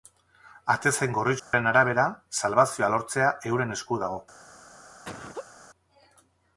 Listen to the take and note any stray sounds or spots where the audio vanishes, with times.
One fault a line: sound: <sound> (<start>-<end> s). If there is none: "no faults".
sound: dropout (1.4-1.5 s)
sound: laugh (5.0-5.5 s)